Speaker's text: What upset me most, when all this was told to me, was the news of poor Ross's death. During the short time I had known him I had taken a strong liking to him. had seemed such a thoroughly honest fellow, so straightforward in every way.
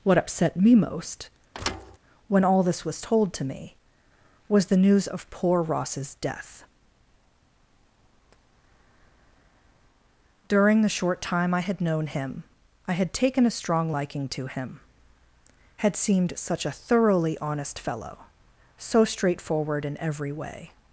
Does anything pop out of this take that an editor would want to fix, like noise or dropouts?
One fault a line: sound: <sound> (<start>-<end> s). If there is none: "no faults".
sound: thud (1.5-2.0 s)